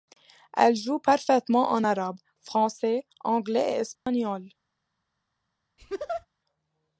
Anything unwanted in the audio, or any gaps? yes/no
yes